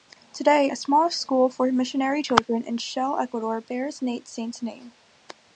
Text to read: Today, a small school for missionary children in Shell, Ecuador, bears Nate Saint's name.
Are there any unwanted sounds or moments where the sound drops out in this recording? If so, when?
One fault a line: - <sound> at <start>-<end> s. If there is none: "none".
none